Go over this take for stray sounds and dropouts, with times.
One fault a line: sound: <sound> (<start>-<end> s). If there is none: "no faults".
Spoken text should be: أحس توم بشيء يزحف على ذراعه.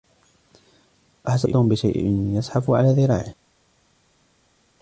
no faults